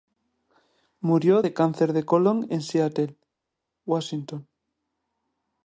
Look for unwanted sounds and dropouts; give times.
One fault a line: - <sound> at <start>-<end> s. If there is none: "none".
none